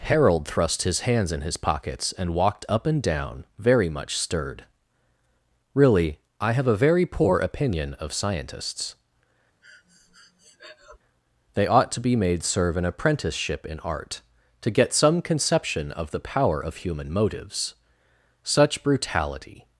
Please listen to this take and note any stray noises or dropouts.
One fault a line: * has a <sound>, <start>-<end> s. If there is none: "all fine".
* has a breath, 9.6-11.0 s